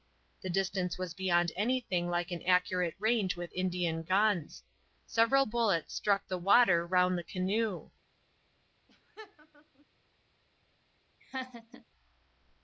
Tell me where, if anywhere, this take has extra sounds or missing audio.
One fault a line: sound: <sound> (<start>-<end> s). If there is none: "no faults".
sound: laugh (8.9-9.9 s)
sound: laugh (11.2-11.9 s)